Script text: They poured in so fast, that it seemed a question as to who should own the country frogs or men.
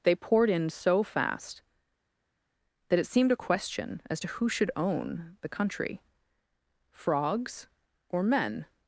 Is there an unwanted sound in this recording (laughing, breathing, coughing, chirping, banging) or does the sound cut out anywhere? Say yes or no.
no